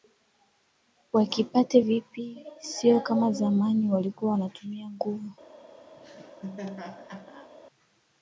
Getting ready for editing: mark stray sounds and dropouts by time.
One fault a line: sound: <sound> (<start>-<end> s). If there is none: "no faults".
sound: laugh (6.0-7.5 s)